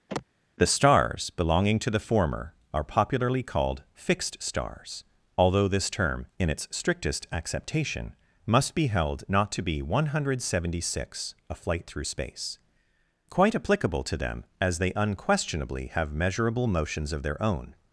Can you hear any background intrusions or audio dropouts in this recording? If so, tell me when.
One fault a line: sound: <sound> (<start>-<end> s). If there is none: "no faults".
sound: sigh (0.1-0.3 s)